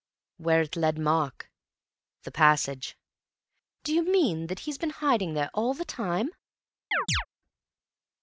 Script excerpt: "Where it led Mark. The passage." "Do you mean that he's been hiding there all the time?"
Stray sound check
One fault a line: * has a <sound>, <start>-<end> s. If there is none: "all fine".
* has a chirp, 6.9-7.3 s